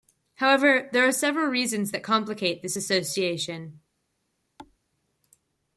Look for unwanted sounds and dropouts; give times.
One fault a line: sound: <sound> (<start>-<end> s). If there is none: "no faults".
sound: thud (4.6-4.8 s)